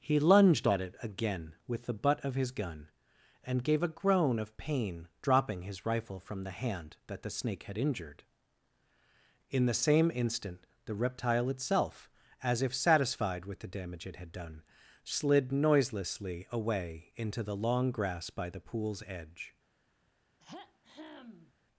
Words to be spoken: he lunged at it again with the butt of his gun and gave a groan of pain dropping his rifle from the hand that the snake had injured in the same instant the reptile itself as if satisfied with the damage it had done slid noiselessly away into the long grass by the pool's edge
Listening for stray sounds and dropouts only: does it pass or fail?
fail